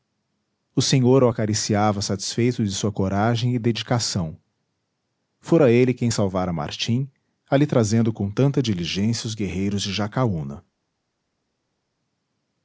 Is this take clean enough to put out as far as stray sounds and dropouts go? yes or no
yes